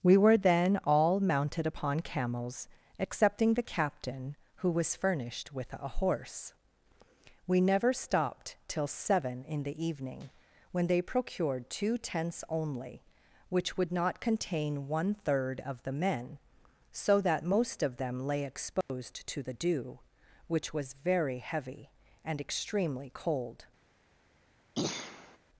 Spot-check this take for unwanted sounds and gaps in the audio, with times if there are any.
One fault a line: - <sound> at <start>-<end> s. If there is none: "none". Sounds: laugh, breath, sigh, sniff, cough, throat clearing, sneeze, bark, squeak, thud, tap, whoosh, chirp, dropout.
- dropout at 18.8-18.9 s
- throat clearing at 24.7-25.4 s